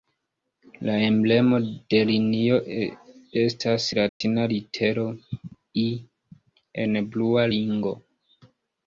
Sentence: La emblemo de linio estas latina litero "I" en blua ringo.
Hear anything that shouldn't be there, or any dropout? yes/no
yes